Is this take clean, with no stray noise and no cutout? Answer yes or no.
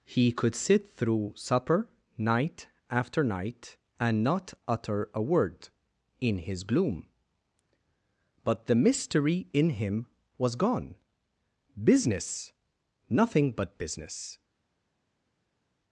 yes